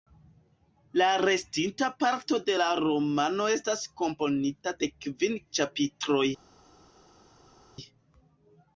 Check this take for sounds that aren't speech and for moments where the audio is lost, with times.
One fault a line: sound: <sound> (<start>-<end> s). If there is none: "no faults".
no faults